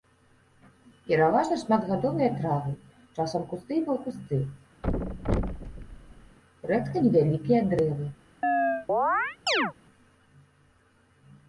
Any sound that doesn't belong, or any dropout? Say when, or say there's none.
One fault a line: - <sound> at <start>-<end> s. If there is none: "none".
- thud at 4.8-6.4 s
- chirp at 8.4-9.7 s